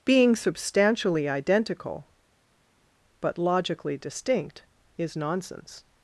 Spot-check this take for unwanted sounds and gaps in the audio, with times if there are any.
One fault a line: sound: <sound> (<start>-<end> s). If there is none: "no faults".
no faults